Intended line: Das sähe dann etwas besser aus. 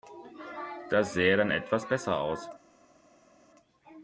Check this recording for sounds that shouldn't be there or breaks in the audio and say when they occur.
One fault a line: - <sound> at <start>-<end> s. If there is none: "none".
none